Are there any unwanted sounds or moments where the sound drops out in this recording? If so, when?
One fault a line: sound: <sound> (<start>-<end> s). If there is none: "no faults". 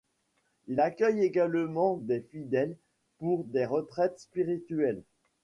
no faults